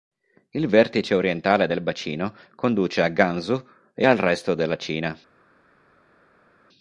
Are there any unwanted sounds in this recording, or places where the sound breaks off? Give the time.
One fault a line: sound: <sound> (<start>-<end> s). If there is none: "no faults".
no faults